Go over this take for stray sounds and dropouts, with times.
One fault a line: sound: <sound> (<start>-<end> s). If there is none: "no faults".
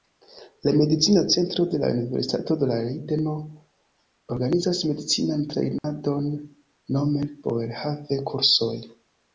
sound: dropout (5.8-5.8 s)